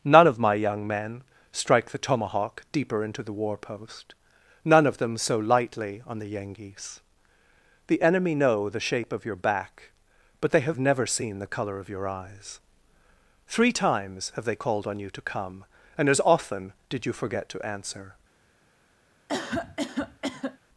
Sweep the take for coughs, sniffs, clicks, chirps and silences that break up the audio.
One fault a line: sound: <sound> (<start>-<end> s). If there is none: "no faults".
sound: cough (19.3-20.6 s)